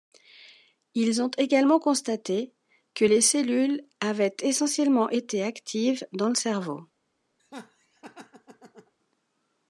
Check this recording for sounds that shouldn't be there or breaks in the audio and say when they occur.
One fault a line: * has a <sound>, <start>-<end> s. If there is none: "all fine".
* has a laugh, 7.4-8.9 s